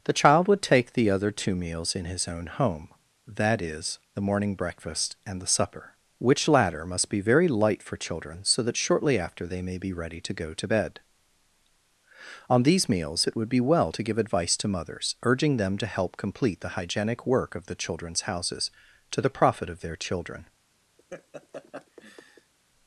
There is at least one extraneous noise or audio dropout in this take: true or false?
true